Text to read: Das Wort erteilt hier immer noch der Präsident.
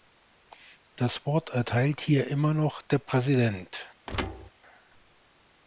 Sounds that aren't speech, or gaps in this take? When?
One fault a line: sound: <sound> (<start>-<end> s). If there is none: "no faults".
sound: thud (4.1-4.5 s)